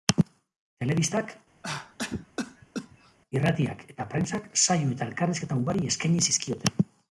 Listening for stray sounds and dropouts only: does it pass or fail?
fail